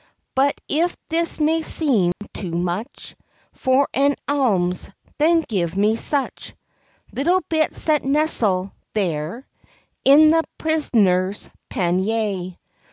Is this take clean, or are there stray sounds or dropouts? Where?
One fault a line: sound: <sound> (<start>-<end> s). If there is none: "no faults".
sound: dropout (2.1-2.2 s)